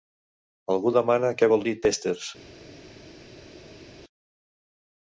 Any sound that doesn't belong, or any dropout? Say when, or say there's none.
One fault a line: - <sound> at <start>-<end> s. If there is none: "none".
none